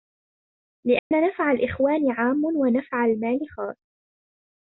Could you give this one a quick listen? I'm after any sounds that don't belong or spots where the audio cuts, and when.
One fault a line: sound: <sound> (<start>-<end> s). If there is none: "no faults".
sound: dropout (1.0-1.1 s)